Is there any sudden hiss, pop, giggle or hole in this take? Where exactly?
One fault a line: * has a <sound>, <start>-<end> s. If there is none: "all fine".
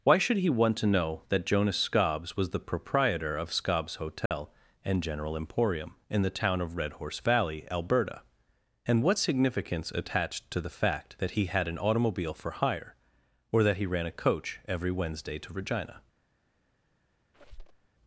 * has a dropout, 4.3-4.3 s
* has a squeak, 17.3-17.9 s